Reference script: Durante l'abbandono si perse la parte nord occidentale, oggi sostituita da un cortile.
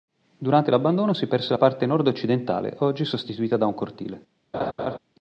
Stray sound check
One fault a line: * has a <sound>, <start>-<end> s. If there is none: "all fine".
* has a laugh, 4.5-5.0 s